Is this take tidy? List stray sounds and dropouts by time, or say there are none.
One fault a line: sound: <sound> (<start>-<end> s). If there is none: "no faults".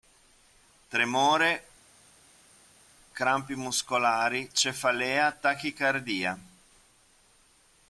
no faults